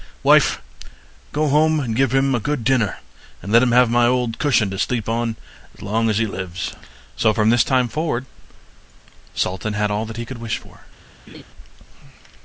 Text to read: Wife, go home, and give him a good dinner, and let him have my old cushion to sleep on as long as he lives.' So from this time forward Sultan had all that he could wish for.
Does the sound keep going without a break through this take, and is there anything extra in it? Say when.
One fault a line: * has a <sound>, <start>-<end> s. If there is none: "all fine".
* has a laugh, 11.3-11.4 s